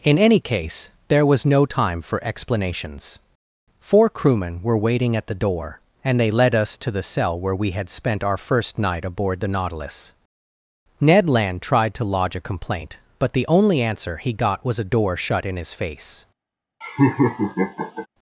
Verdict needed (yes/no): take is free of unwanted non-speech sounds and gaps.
no